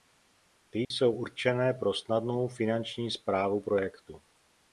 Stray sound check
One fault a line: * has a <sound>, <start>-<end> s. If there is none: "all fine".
* has a dropout, 0.8-0.9 s